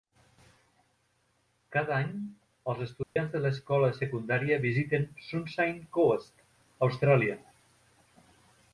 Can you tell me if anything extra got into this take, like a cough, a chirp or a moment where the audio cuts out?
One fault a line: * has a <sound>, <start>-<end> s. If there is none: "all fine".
* has a dropout, 3.0-3.2 s